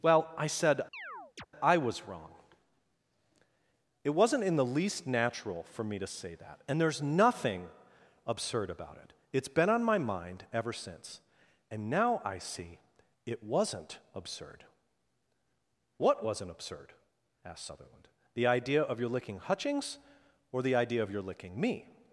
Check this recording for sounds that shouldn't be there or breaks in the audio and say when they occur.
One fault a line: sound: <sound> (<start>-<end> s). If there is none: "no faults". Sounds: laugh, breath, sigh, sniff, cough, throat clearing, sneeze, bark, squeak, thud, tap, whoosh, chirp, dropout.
sound: chirp (0.9-1.5 s)